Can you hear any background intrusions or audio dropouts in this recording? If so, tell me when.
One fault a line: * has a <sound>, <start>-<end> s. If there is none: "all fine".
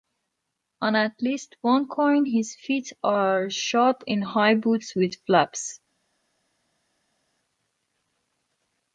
all fine